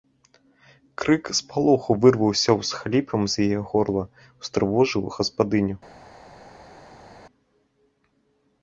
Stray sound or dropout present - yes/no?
no